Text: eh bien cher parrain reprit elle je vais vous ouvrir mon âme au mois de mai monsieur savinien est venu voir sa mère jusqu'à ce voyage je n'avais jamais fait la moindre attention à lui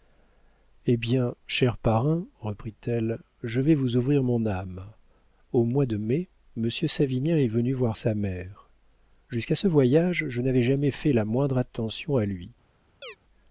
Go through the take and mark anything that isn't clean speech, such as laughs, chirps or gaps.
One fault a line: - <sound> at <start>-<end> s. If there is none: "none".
- chirp at 13.0-13.2 s